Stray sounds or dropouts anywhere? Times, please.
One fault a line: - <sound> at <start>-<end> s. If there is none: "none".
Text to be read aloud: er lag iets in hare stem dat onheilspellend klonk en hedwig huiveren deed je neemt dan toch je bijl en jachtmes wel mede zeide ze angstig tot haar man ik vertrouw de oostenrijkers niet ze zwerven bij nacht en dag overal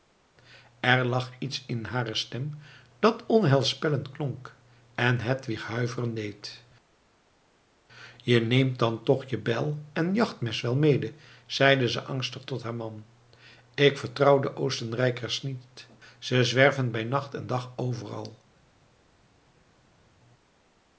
none